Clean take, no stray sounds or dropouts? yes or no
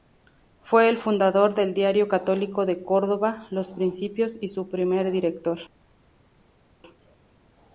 yes